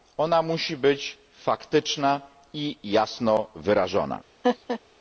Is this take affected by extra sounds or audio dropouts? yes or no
yes